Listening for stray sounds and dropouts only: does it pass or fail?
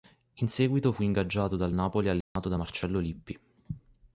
fail